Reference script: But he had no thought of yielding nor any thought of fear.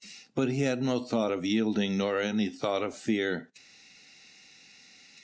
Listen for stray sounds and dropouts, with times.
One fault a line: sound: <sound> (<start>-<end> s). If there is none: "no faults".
no faults